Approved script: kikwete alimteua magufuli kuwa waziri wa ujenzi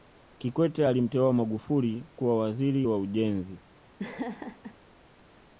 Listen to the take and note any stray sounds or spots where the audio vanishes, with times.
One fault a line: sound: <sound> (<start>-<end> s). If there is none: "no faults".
sound: laugh (4.0-4.8 s)